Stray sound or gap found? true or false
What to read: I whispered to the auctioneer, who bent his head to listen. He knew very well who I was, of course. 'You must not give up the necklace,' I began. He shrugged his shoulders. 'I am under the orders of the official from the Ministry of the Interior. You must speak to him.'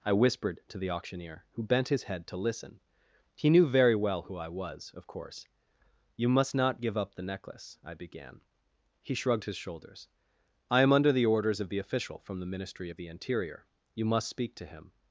false